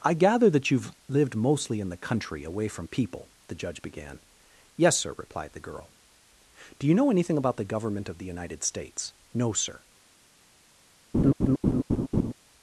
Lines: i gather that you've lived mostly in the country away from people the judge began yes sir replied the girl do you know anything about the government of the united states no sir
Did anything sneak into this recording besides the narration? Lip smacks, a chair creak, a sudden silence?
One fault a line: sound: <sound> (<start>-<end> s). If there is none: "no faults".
sound: laugh (11.1-12.3 s)